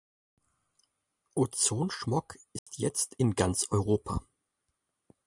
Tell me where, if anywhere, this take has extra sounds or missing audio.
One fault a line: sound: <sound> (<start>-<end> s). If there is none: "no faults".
sound: dropout (2.6-2.7 s)